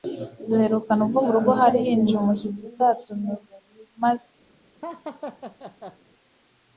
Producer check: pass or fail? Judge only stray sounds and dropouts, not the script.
fail